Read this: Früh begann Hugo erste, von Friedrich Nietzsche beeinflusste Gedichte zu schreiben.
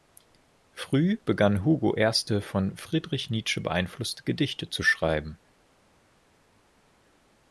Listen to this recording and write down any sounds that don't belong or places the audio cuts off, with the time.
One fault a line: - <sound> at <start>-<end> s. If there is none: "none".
none